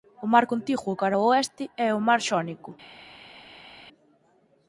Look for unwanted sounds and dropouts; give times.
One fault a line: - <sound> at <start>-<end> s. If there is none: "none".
none